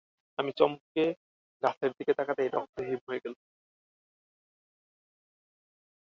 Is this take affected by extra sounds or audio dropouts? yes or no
no